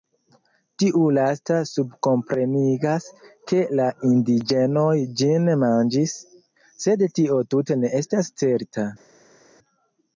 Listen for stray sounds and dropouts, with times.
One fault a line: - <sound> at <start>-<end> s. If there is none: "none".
none